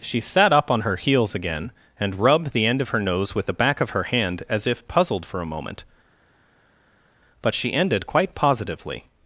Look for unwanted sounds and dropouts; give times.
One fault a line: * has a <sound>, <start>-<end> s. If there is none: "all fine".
all fine